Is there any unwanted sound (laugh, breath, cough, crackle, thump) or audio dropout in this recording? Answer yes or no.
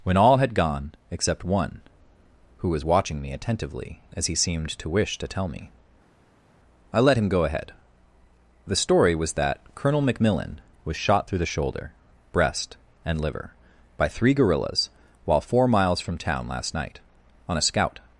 no